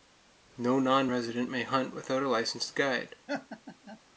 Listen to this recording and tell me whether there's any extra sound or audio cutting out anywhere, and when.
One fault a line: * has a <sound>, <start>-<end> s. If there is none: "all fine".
* has a laugh, 3.3-4.0 s